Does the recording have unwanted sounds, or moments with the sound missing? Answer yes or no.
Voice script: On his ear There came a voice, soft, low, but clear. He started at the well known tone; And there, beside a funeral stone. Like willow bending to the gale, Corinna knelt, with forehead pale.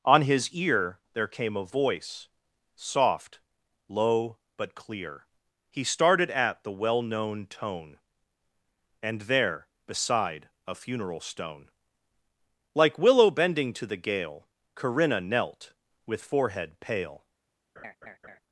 yes